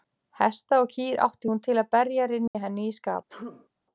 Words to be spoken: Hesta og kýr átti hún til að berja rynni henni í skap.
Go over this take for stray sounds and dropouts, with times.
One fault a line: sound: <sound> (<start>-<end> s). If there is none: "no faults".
sound: dropout (2.5-2.5 s)
sound: sneeze (3.3-3.7 s)